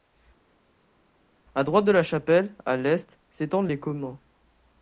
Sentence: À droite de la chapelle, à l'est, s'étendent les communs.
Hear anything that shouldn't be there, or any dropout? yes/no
no